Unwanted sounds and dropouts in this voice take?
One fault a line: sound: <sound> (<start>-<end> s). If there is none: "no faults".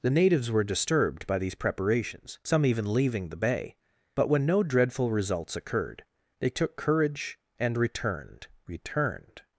no faults